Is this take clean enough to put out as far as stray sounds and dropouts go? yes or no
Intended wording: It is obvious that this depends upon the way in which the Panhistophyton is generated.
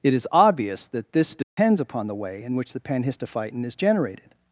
no